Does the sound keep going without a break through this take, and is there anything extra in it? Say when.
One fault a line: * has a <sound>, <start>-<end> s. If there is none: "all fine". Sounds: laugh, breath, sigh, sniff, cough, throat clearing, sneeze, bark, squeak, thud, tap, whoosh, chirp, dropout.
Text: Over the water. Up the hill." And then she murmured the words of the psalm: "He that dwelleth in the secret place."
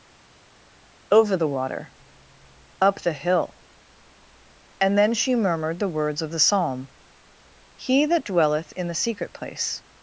all fine